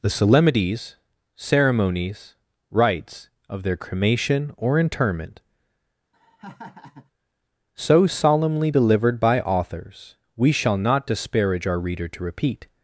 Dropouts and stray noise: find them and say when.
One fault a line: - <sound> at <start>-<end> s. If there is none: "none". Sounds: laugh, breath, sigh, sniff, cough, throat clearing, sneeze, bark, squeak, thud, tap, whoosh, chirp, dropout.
- laugh at 6.1-7.1 s